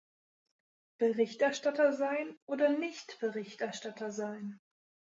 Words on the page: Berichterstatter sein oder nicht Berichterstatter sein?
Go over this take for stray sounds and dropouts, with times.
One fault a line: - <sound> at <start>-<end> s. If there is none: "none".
none